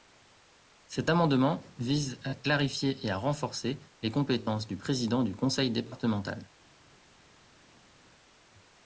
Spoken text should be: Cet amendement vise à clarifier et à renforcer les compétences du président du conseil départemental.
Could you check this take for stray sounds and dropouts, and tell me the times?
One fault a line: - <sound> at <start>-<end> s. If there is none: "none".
none